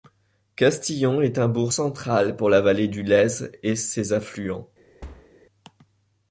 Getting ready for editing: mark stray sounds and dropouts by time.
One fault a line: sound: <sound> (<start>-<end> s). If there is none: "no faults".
sound: thud (5.0-5.3 s)